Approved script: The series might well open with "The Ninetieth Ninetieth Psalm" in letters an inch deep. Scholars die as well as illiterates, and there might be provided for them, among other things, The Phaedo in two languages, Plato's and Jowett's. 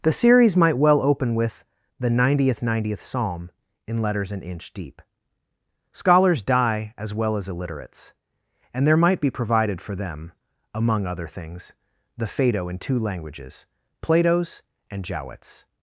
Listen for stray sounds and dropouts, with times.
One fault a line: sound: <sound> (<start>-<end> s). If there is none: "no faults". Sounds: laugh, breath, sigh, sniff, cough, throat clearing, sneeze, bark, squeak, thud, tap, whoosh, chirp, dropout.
no faults